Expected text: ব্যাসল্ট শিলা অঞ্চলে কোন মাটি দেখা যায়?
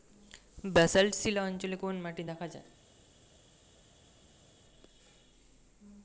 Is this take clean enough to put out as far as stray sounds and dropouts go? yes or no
yes